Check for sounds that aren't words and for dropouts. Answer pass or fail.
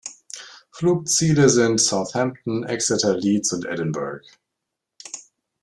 pass